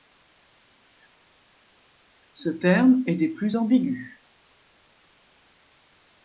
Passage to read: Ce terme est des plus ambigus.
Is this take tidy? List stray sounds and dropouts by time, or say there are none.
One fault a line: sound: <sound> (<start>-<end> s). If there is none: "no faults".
no faults